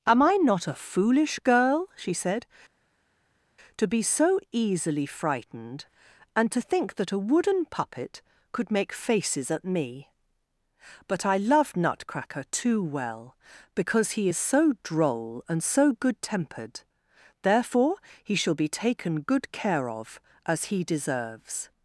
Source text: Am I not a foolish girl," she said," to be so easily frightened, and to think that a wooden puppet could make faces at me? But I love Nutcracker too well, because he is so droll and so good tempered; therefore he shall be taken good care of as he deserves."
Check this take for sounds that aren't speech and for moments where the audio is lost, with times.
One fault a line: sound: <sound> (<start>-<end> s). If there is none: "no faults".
no faults